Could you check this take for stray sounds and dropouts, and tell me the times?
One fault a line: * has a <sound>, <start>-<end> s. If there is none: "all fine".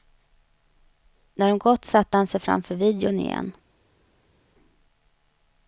all fine